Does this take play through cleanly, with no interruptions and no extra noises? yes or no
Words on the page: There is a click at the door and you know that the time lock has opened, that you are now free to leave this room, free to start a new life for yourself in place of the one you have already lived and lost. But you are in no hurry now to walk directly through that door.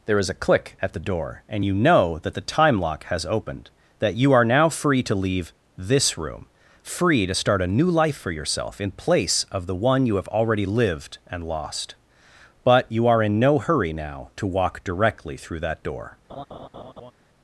no